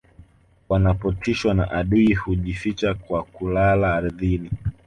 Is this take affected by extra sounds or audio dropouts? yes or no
no